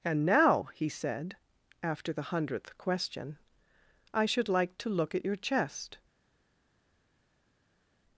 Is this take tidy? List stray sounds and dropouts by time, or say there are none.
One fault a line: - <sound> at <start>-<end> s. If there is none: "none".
none